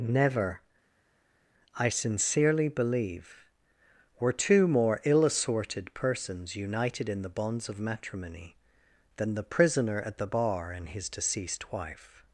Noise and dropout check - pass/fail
pass